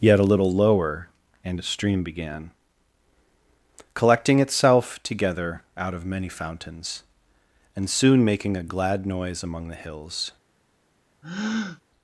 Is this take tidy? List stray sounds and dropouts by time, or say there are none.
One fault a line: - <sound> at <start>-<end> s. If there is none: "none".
- breath at 11.2-11.8 s